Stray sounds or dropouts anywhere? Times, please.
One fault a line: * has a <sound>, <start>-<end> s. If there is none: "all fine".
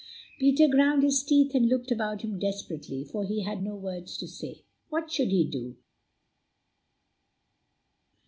all fine